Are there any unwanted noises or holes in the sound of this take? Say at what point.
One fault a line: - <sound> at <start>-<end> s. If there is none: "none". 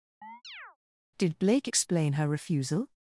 - chirp at 0.2-0.8 s